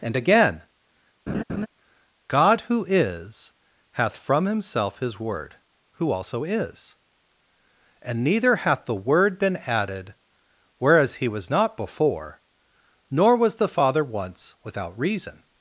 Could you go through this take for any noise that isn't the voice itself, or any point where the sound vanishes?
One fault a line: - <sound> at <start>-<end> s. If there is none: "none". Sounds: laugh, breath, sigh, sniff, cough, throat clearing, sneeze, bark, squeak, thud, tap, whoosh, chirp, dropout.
- laugh at 1.3-1.7 s